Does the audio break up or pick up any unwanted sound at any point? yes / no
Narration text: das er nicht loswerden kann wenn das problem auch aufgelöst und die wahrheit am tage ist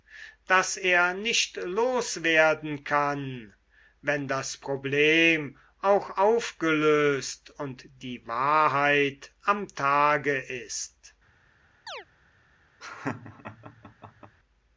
yes